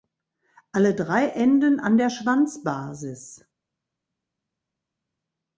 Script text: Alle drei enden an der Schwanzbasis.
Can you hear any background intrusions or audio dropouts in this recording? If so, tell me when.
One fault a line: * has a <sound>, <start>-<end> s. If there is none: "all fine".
all fine